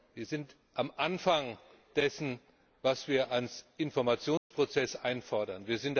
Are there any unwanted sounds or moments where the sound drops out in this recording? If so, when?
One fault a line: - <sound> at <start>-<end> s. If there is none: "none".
- dropout at 4.4-4.5 s